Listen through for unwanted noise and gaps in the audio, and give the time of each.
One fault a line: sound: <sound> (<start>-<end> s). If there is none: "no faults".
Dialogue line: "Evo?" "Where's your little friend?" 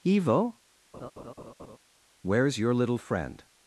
sound: laugh (0.9-1.8 s)